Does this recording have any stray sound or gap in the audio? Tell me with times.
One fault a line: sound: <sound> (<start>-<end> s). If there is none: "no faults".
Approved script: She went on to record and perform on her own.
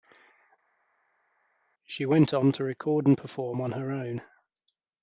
no faults